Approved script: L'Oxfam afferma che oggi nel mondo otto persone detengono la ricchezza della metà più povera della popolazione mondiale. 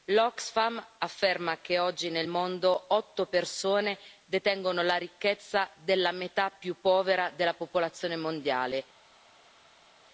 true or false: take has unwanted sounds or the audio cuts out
false